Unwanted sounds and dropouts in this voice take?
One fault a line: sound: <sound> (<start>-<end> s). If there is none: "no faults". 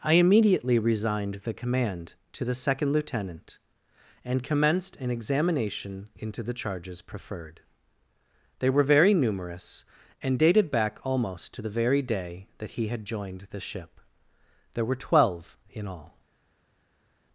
no faults